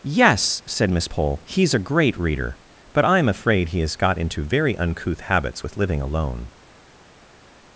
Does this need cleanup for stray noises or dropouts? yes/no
no